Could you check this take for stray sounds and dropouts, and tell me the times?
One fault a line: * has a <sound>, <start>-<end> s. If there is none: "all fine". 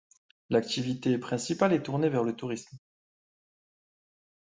all fine